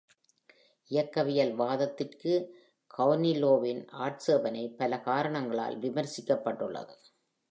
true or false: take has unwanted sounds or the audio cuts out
false